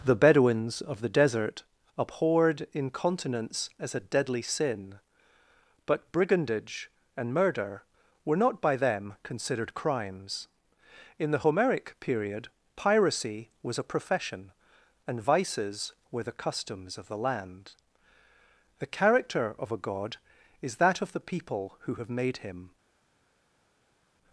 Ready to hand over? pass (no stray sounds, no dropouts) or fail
pass